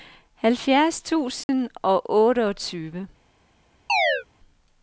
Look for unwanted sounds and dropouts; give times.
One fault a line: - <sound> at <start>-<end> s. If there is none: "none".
- dropout at 1.4-1.5 s
- chirp at 3.9-4.2 s